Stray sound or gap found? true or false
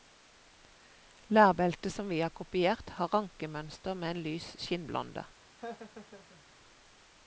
true